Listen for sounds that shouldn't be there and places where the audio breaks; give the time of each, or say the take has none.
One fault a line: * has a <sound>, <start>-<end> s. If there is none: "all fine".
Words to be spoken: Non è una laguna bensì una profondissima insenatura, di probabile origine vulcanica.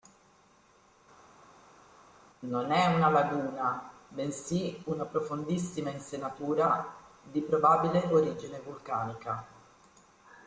all fine